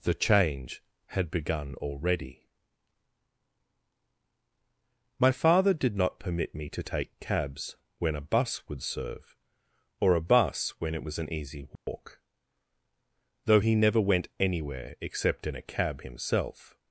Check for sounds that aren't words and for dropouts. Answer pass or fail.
fail